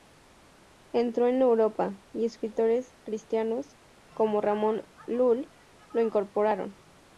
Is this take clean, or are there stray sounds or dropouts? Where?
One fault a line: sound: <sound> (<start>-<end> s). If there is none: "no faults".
no faults